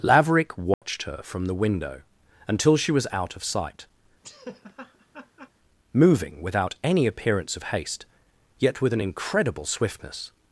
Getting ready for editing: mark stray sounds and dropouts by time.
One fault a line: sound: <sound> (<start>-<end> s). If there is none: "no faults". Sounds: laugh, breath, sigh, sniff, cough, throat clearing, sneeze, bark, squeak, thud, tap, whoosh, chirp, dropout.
sound: dropout (0.7-0.8 s)
sound: laugh (4.2-5.5 s)